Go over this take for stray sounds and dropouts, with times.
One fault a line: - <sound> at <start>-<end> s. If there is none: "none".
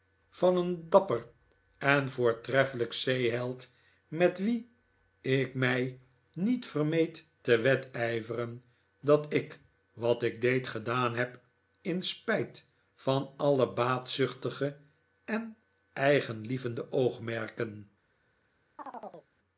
- chirp at 18.8-19.3 s